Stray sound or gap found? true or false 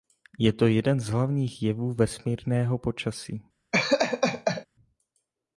true